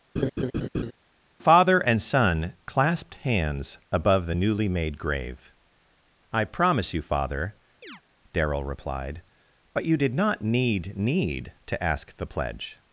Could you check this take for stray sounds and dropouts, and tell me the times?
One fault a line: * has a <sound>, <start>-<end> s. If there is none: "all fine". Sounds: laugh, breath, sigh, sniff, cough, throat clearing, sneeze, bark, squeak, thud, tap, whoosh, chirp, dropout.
* has a laugh, 0.2-0.9 s
* has a chirp, 7.8-8.0 s